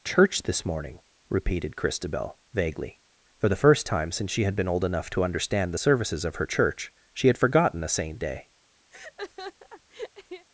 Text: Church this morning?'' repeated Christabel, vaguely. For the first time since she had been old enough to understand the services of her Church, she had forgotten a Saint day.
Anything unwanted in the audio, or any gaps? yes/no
yes